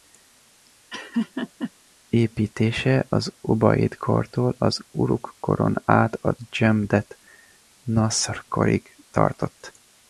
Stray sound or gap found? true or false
true